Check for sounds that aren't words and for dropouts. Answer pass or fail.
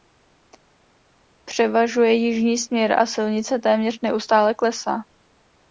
pass